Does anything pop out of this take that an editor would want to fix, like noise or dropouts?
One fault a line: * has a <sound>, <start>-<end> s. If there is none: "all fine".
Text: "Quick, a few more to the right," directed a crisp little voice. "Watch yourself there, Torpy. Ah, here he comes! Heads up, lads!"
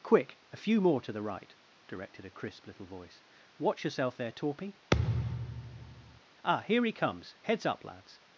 * has a thud, 4.9-6.2 s